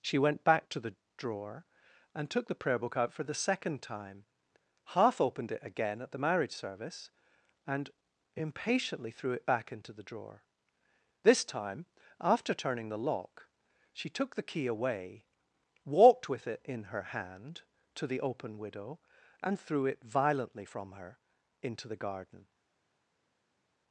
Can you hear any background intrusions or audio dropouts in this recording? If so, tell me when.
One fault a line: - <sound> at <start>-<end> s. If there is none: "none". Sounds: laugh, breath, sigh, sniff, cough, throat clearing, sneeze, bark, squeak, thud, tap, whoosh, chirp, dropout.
none